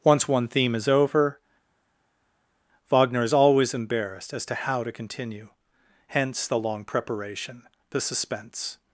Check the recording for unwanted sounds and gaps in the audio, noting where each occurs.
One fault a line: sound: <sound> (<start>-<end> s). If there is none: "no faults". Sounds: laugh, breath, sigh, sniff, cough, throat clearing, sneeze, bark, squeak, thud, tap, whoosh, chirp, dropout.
no faults